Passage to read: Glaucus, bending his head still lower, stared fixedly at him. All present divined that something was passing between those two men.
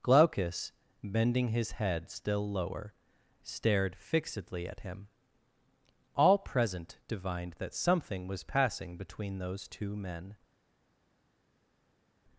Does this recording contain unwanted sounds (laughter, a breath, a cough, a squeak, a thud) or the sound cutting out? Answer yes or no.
no